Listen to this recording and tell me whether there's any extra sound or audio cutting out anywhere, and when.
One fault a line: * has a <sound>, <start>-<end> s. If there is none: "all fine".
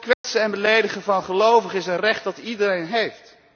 * has a dropout, 0.1-0.2 s